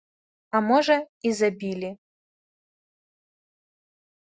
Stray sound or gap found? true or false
false